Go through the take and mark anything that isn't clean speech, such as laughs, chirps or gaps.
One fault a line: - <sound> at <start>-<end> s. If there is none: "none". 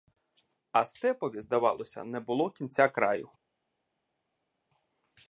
none